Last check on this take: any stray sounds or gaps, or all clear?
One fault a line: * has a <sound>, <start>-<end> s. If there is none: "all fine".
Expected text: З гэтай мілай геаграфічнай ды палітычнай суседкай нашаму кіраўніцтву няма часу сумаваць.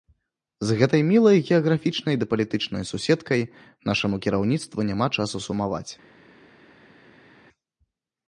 all fine